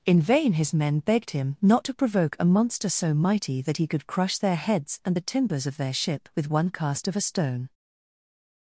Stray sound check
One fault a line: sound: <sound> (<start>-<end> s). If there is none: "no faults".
no faults